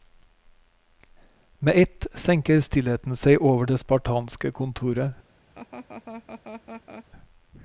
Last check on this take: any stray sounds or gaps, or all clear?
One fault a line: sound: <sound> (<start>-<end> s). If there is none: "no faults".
sound: laugh (5.5-7.1 s)